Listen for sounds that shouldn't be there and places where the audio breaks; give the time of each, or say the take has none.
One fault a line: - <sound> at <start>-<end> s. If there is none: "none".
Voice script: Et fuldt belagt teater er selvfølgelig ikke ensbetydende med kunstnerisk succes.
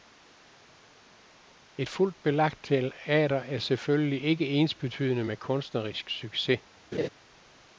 - laugh at 6.9-7.1 s